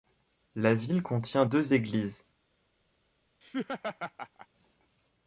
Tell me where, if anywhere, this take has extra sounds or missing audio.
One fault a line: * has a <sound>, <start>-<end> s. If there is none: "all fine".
* has a laugh, 3.4-4.5 s